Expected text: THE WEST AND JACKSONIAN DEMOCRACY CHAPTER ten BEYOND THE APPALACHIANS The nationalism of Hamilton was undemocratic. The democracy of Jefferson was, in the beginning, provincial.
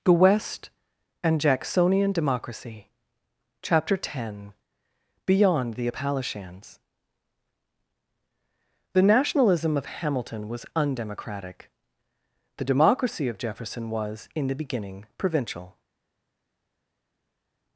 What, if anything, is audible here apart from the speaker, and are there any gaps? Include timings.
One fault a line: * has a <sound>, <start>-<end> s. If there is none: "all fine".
all fine